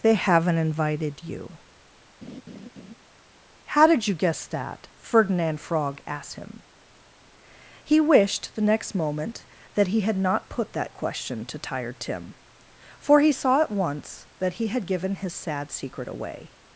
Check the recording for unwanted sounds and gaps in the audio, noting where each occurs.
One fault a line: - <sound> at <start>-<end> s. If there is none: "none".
- laugh at 2.2-2.9 s